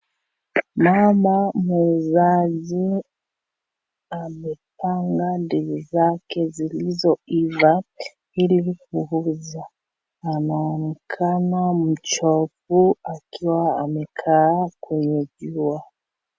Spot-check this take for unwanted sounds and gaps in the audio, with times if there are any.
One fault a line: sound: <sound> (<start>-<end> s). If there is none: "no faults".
no faults